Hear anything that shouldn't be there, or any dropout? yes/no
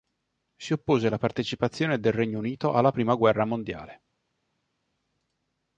no